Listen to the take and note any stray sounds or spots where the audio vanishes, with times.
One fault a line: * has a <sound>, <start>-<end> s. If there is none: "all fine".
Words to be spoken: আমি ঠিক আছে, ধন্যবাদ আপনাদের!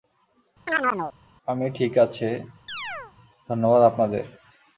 * has a chirp, 0.7-1.1 s
* has a chirp, 2.7-3.1 s